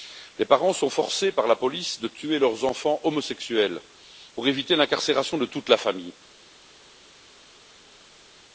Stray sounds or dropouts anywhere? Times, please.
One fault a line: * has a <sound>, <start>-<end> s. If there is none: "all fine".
all fine